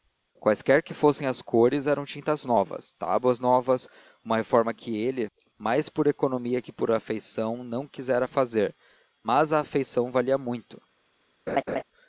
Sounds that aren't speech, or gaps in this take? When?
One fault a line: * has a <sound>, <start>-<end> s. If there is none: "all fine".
* has a laugh, 11.5-11.8 s